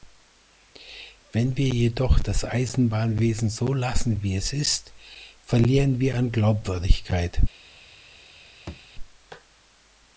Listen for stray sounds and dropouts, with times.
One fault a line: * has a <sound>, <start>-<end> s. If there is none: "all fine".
* has a thud, 8.7-8.9 s